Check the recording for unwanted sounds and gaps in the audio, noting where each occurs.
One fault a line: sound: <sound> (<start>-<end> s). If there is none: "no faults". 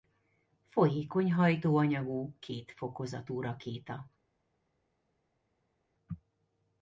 no faults